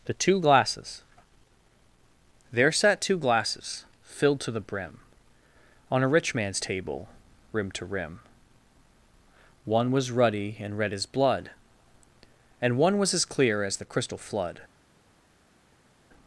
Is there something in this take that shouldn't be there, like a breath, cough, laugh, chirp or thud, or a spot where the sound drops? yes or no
no